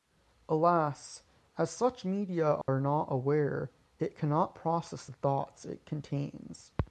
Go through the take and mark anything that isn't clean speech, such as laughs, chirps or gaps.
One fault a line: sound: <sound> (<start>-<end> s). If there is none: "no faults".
sound: dropout (2.6-2.7 s)